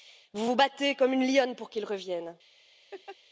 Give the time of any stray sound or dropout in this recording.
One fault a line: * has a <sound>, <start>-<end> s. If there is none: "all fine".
* has a laugh, 2.9-3.2 s